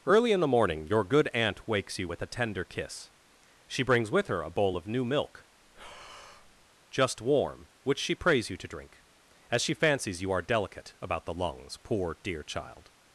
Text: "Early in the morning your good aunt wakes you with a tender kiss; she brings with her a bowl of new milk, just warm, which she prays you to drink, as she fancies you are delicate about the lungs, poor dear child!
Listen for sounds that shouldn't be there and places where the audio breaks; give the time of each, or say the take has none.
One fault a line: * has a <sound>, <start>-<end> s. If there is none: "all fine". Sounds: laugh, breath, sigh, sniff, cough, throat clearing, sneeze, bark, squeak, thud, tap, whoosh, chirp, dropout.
* has a breath, 5.6-6.7 s